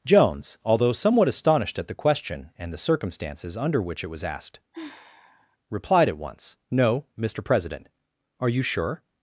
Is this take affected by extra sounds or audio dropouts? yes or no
yes